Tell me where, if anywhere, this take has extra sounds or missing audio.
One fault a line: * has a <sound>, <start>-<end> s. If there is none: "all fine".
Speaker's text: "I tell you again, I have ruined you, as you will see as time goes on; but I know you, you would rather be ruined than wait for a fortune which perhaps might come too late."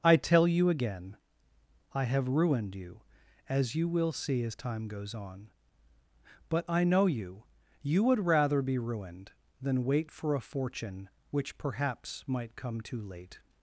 all fine